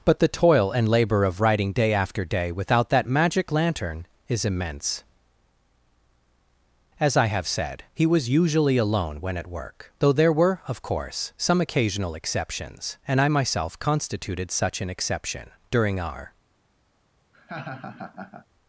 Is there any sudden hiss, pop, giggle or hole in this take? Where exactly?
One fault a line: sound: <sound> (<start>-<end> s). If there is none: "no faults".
sound: laugh (17.3-18.5 s)